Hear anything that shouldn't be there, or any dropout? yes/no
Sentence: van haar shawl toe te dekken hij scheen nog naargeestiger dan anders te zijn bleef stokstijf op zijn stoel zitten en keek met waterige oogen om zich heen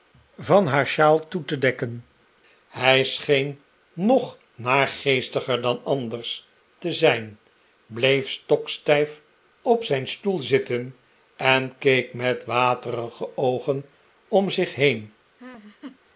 yes